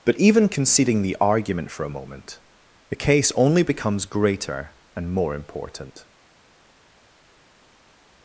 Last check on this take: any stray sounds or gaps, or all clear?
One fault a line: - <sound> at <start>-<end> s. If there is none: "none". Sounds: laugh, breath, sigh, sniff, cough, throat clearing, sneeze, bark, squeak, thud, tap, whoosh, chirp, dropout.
none